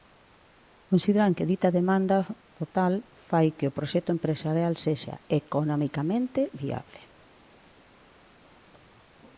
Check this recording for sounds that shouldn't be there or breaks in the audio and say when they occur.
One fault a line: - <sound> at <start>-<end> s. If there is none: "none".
none